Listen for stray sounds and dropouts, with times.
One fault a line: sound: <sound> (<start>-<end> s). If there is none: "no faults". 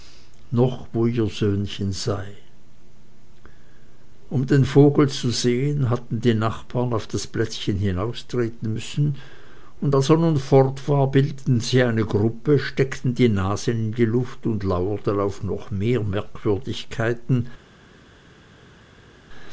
no faults